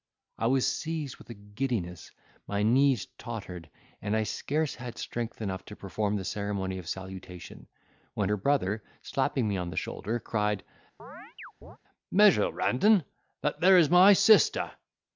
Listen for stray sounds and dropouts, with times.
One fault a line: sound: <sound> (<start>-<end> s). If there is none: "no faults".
sound: chirp (11.0-11.8 s)